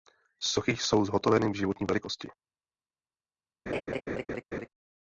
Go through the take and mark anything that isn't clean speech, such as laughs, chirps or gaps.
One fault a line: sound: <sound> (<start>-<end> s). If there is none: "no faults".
sound: laugh (3.7-4.7 s)